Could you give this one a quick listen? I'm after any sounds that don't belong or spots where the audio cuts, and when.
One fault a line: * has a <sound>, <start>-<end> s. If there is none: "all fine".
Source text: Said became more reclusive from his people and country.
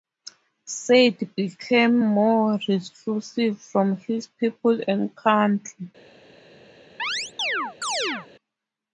* has a chirp, 7.0-8.3 s